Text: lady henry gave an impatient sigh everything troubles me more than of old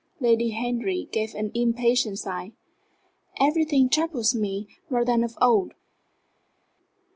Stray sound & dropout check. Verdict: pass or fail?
pass